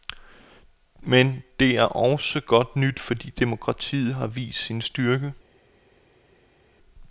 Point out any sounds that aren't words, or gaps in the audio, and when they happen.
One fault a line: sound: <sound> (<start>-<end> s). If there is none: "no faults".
no faults